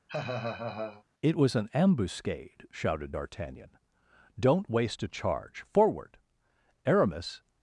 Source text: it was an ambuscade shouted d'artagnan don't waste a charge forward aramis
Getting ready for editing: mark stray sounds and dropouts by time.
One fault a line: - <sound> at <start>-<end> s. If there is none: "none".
- laugh at 0.1-1.0 s